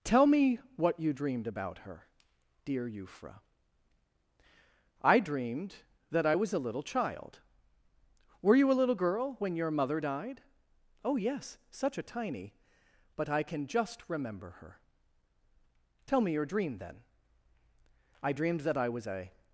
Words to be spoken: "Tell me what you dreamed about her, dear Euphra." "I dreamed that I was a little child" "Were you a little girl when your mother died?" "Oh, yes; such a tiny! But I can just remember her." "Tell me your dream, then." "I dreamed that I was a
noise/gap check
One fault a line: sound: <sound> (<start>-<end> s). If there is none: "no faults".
no faults